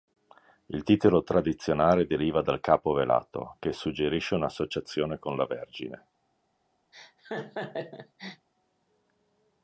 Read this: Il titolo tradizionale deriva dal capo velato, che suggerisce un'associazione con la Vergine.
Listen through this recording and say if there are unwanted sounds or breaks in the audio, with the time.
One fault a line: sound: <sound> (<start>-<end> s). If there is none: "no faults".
sound: laugh (6.9-8.5 s)